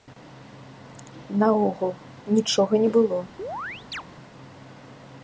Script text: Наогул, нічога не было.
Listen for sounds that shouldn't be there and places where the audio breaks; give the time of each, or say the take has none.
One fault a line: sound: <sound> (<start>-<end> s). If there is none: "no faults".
sound: chirp (3.4-4.0 s)